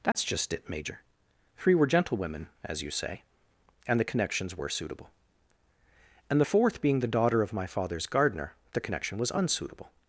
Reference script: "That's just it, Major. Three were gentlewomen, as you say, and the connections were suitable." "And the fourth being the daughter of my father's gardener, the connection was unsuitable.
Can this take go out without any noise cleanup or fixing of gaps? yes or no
no